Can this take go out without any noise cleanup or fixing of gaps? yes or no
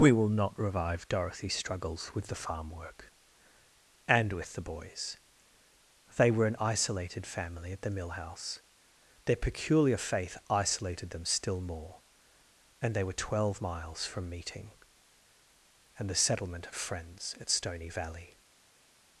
yes